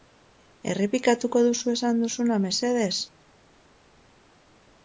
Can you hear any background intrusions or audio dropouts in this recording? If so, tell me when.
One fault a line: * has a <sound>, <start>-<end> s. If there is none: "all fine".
all fine